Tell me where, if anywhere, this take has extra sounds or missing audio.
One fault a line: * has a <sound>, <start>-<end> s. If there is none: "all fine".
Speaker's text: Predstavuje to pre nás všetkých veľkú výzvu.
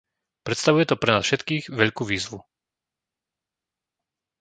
all fine